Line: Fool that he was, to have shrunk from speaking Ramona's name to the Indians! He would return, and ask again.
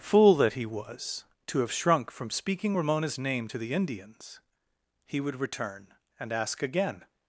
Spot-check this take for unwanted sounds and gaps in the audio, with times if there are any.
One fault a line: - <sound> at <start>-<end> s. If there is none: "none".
none